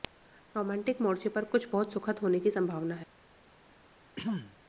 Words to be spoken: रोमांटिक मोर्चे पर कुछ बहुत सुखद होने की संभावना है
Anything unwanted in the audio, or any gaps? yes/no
yes